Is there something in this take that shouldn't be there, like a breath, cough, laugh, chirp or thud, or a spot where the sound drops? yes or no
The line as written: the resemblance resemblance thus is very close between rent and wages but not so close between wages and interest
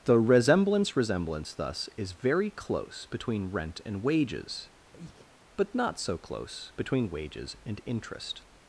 yes